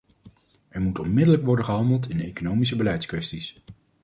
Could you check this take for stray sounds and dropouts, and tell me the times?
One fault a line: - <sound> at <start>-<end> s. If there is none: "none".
none